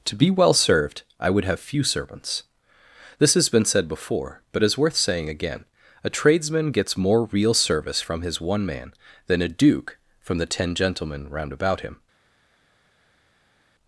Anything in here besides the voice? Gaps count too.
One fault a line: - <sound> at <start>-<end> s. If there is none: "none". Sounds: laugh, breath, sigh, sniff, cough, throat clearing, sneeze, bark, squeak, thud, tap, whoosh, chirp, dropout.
none